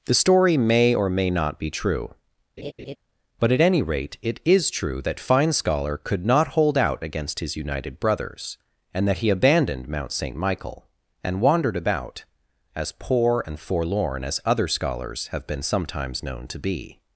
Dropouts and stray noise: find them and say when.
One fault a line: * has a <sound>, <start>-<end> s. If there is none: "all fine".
* has a laugh, 2.6-3.0 s